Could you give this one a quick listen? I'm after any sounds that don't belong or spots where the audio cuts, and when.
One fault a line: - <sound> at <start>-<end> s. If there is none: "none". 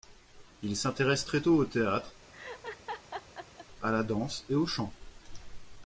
- laugh at 2.3-3.7 s